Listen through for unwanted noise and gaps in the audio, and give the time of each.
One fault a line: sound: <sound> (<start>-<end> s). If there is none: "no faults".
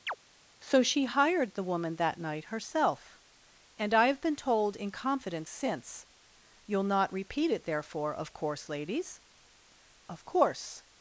sound: chirp (0.1-0.2 s)